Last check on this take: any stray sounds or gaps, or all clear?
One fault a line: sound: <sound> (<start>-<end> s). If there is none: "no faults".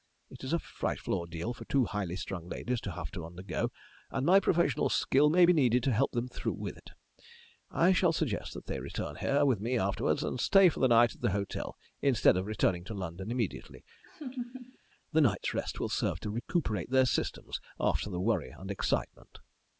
sound: laugh (14.0-14.8 s)